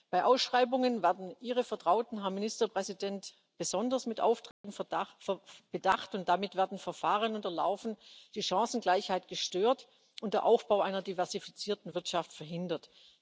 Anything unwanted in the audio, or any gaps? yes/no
yes